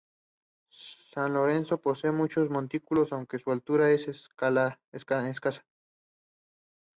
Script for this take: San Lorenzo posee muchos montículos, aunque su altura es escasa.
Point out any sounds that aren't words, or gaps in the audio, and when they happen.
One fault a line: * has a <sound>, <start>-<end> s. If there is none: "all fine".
all fine